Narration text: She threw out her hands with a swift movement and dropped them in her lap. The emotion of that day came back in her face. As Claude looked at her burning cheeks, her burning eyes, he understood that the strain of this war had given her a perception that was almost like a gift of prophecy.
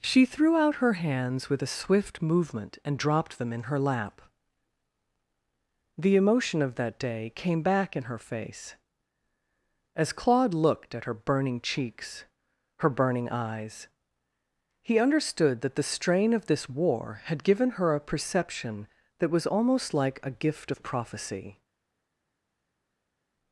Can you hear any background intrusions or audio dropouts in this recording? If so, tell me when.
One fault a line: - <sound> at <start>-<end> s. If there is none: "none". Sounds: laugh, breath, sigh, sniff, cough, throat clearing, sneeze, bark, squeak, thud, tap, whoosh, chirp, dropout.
none